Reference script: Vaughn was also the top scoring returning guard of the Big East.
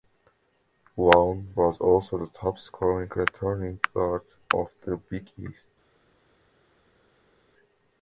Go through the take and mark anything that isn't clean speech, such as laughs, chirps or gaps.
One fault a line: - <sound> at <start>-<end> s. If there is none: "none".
none